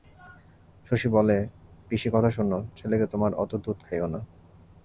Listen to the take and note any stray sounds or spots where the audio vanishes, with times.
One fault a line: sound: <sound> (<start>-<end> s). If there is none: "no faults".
no faults